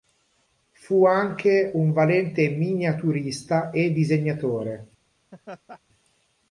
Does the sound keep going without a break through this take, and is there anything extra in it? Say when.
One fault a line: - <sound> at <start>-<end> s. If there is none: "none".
- laugh at 5.3-5.8 s